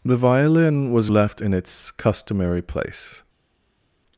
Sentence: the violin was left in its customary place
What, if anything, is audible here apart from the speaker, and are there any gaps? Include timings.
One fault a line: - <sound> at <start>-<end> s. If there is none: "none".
none